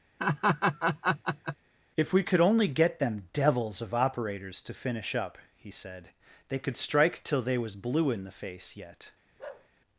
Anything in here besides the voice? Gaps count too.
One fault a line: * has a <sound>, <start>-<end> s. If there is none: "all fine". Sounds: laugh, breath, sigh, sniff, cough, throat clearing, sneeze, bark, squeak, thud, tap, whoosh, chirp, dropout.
* has a laugh, 0.2-1.6 s
* has a bark, 9.4-9.7 s